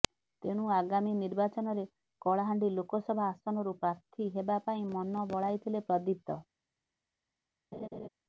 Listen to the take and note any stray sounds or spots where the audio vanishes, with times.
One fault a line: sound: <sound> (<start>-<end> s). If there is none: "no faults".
sound: laugh (7.7-8.1 s)